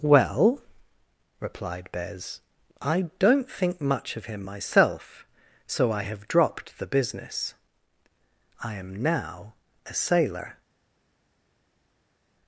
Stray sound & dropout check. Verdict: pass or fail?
pass